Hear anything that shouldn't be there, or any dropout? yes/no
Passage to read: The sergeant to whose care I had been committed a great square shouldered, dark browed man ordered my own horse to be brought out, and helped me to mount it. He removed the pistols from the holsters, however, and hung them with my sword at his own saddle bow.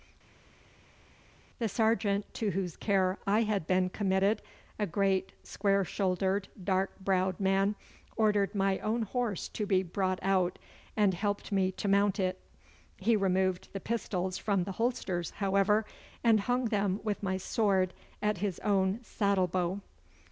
no